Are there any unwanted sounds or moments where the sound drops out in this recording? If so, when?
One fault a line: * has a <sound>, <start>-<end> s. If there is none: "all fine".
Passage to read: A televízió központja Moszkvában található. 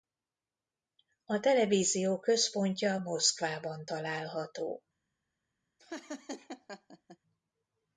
* has a laugh, 5.8-7.2 s